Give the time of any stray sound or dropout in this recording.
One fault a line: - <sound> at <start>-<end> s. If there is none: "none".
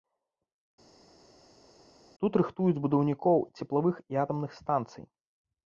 none